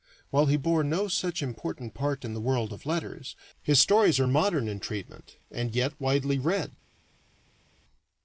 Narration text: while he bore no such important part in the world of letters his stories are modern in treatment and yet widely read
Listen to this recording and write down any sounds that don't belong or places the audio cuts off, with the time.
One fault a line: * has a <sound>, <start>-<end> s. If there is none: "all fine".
all fine